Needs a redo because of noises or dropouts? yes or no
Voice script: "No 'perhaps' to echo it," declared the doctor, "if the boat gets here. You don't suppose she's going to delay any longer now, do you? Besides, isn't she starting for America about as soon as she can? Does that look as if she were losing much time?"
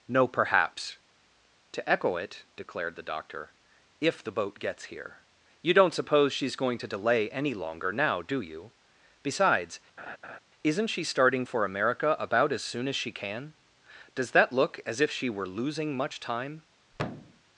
yes